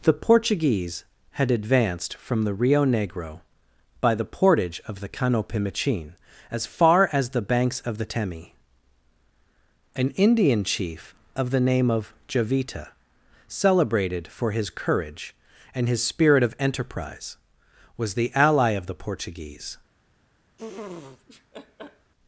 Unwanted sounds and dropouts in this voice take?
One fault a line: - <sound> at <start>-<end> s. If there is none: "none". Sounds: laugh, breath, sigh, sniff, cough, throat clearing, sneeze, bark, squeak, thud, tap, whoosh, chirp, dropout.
- laugh at 20.6-22.1 s